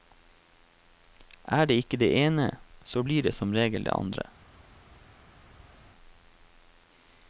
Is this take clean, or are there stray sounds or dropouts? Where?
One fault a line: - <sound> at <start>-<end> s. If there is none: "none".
none